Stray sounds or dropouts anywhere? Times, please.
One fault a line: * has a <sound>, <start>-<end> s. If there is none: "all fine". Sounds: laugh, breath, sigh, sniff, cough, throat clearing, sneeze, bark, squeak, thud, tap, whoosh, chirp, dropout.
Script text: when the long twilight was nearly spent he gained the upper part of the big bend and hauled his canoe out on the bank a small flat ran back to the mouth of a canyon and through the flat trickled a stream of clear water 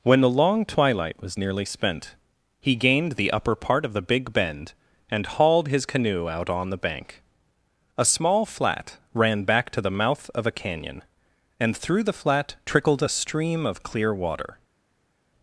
all fine